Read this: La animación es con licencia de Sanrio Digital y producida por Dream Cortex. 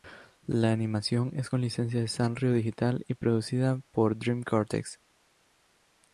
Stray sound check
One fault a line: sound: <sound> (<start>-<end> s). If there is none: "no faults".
no faults